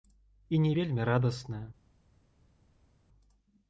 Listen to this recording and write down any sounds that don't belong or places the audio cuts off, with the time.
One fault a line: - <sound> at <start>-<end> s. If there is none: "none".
none